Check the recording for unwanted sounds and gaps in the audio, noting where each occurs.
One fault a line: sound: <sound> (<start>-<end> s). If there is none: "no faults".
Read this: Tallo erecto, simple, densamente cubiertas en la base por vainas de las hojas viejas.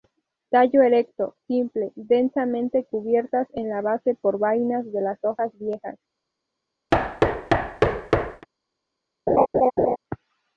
sound: thud (6.9-8.5 s)
sound: laugh (9.3-10.0 s)